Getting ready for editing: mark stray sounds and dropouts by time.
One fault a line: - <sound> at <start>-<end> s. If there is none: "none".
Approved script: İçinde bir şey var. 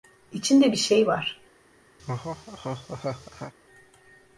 - laugh at 2.0-3.5 s